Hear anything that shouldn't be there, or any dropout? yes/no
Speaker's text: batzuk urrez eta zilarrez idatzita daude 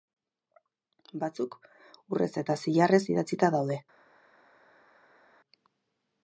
no